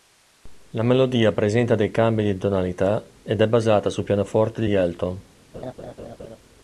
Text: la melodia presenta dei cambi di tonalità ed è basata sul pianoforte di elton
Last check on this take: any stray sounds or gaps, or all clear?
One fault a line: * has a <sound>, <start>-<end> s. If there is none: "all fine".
* has a laugh, 5.5-6.4 s